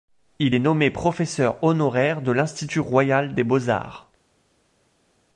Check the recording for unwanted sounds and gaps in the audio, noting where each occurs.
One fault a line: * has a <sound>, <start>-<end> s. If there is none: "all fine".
all fine